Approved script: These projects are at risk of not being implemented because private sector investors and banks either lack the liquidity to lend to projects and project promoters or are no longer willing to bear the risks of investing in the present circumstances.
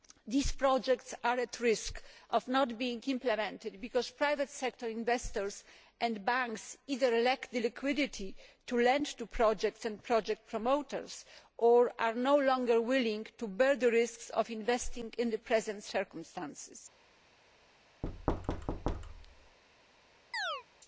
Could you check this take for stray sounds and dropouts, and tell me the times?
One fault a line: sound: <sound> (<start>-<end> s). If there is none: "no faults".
sound: thud (18.0-19.6 s)
sound: chirp (20.3-20.6 s)